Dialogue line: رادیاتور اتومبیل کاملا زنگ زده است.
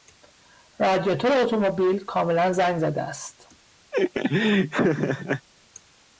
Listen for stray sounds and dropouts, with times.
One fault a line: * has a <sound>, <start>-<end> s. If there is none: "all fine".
* has a laugh, 3.9-5.5 s